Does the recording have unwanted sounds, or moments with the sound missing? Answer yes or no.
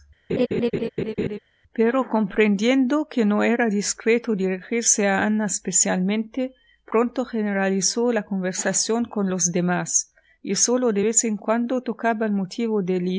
yes